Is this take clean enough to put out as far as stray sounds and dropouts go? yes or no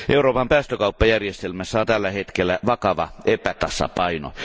yes